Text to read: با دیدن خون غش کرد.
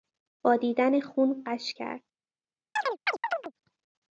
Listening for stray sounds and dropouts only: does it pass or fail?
fail